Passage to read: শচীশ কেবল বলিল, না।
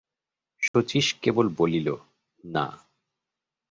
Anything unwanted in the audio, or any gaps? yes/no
yes